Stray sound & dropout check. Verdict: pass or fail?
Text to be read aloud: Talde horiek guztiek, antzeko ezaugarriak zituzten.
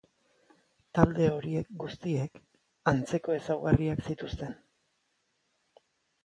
pass